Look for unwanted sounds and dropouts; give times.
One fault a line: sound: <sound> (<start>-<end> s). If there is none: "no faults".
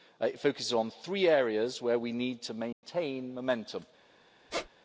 sound: dropout (2.7-2.8 s)
sound: squeak (4.5-4.7 s)